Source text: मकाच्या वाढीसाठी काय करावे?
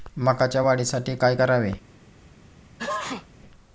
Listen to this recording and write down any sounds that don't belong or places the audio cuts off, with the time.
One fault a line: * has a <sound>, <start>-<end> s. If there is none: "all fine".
* has a sneeze, 2.8-3.3 s